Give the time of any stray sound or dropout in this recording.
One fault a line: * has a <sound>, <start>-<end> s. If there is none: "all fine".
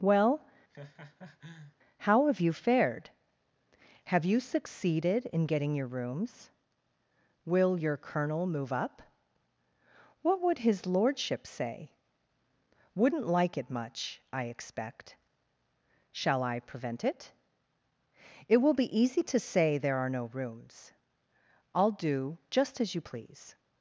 * has a laugh, 0.7-1.8 s